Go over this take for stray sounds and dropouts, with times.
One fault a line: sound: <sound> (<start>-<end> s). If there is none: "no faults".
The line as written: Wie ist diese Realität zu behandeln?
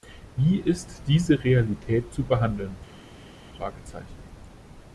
no faults